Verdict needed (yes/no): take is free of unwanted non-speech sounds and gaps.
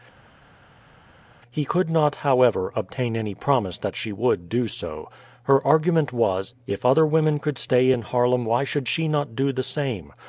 yes